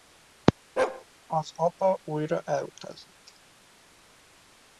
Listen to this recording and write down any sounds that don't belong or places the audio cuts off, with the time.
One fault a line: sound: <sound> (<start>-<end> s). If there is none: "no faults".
sound: bark (0.8-1.0 s)